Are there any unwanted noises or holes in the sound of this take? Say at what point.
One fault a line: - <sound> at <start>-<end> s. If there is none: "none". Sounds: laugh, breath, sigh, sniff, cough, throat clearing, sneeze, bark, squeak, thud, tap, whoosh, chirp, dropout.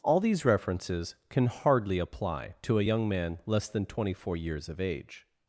none